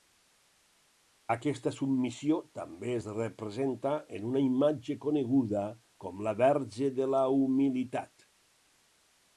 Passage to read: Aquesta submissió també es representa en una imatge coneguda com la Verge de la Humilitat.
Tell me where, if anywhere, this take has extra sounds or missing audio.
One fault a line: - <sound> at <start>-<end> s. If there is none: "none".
none